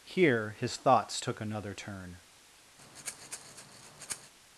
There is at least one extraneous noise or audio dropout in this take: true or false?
true